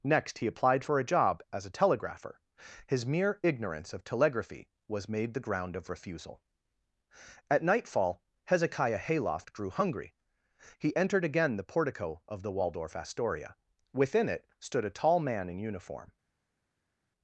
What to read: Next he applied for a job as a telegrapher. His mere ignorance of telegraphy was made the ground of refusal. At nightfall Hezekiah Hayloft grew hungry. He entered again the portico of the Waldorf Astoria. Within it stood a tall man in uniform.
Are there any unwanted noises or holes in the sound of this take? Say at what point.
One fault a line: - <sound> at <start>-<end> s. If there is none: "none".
none